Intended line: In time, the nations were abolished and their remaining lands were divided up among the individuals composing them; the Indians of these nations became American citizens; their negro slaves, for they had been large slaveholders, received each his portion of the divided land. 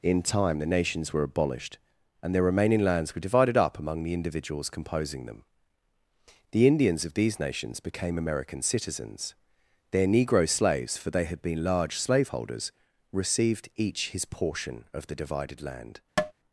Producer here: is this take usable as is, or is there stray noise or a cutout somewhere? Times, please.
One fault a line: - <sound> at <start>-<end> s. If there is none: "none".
- tap at 16.2-16.3 s